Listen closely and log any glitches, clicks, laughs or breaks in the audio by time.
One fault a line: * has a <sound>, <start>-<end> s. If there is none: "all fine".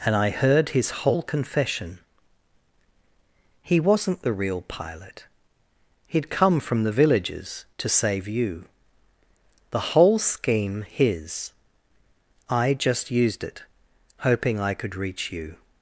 all fine